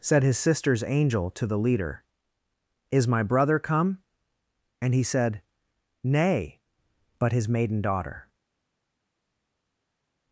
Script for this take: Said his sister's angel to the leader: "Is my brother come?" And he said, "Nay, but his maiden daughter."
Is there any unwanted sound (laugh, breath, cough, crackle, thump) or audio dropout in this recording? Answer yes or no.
no